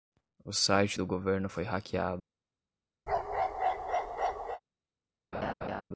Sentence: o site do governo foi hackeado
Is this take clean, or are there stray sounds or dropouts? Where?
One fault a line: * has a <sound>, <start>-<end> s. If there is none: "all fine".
* has a bark, 3.1-4.6 s
* has a laugh, 5.3-5.8 s